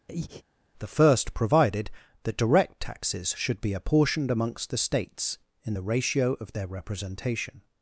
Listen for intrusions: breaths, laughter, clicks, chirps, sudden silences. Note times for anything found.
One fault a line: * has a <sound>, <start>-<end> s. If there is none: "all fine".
* has a breath, 0.1-0.4 s